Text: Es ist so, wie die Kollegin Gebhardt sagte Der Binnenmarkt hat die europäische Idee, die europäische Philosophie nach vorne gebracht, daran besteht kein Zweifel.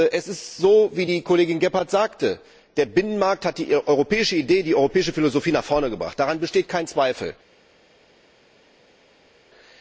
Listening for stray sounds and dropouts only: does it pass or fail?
pass